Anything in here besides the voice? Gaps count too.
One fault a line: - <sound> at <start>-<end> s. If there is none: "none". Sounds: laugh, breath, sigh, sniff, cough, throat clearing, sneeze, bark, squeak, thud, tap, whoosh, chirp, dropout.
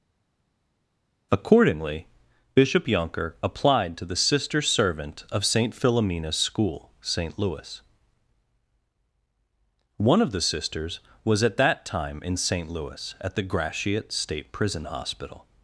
none